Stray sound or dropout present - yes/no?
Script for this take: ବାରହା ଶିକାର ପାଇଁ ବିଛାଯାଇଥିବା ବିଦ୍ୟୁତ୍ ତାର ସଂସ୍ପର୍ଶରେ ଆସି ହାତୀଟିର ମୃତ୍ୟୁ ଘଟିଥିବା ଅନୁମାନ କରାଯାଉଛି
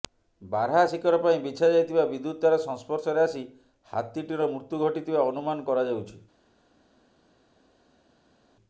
no